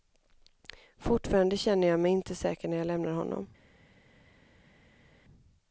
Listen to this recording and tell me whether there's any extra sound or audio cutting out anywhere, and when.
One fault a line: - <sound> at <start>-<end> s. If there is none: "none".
none